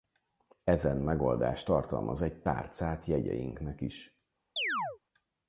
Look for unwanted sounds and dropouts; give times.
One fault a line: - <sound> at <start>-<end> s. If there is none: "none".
- chirp at 4.6-5.0 s